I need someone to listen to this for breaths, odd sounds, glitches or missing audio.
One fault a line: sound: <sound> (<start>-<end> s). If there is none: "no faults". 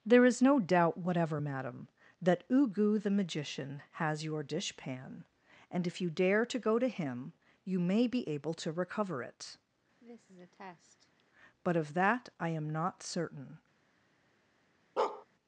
sound: cough (10.0-11.2 s)
sound: bark (15.0-15.3 s)